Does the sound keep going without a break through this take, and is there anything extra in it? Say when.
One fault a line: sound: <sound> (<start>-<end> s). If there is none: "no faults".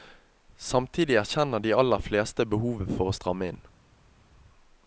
no faults